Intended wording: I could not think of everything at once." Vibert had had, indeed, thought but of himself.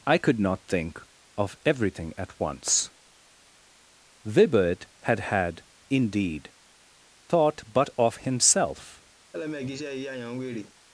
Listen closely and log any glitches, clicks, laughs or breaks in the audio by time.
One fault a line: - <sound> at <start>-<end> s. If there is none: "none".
- laugh at 9.3-10.7 s